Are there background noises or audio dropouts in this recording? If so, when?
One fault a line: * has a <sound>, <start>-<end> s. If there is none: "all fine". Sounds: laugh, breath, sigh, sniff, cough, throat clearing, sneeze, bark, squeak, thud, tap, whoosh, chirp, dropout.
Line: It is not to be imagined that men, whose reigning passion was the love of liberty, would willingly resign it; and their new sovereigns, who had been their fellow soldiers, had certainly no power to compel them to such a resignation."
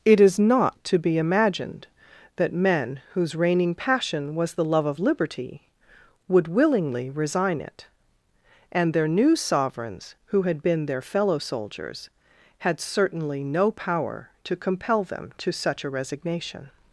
all fine